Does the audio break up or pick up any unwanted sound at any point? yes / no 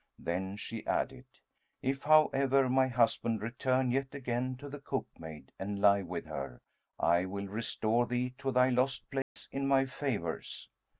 yes